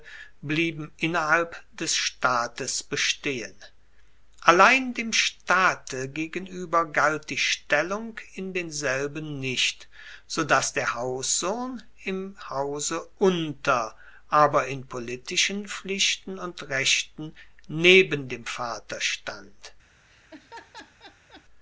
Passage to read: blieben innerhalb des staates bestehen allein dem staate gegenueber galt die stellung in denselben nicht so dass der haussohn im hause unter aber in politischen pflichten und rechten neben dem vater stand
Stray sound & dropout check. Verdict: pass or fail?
fail